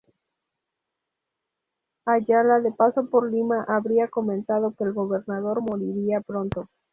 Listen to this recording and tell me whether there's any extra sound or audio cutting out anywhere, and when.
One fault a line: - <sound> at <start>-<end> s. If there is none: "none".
none